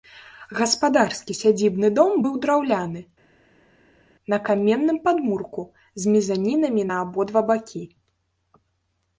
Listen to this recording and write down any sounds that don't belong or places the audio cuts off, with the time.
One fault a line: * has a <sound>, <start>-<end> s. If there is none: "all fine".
all fine